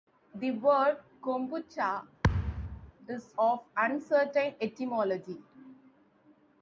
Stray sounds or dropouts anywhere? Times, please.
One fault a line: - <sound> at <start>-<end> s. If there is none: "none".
- thud at 2.2-2.9 s